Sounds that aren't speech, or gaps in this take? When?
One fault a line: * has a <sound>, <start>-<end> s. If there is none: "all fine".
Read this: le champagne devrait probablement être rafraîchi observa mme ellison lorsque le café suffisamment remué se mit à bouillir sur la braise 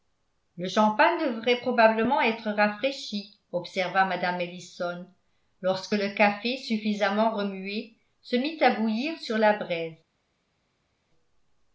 all fine